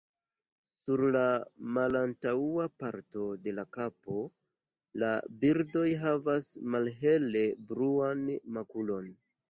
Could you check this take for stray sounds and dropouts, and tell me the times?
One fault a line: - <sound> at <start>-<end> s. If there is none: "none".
none